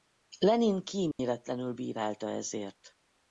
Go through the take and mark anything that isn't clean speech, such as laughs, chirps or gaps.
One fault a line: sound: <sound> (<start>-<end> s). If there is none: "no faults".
sound: dropout (1.1-1.2 s)